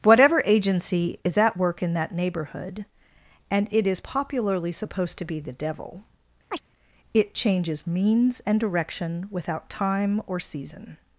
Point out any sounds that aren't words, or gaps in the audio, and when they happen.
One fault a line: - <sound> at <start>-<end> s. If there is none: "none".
- chirp at 6.5-6.6 s